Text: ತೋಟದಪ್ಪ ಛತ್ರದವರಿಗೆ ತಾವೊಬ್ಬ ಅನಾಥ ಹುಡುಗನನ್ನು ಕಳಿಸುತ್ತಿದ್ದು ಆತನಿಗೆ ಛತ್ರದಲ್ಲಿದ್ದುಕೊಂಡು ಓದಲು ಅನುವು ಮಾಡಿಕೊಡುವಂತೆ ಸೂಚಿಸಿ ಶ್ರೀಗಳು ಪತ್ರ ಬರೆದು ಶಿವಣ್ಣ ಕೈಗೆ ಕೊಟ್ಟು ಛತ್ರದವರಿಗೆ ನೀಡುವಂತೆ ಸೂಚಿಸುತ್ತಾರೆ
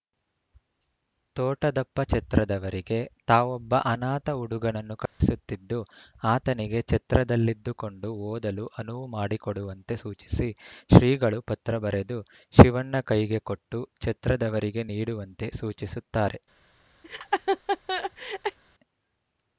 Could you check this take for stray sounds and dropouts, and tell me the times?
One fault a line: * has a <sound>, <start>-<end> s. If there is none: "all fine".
* has a dropout, 5.1-5.2 s
* has a laugh, 17.0-18.6 s